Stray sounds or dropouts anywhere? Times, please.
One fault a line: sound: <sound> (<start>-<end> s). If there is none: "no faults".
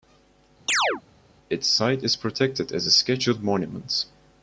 sound: chirp (0.7-1.0 s)